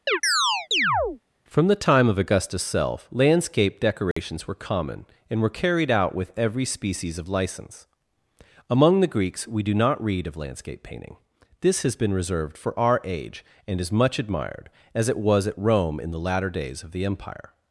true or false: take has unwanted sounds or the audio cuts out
true